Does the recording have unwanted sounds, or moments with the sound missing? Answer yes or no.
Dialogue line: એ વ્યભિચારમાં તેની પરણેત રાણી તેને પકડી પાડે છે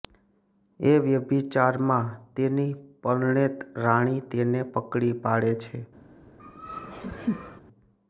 yes